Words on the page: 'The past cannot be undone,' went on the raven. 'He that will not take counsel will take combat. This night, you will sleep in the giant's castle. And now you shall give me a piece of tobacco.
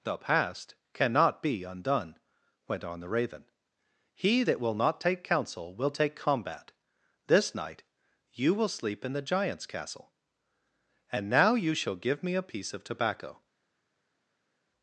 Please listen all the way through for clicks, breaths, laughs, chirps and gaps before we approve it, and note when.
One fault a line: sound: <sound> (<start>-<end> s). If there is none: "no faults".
no faults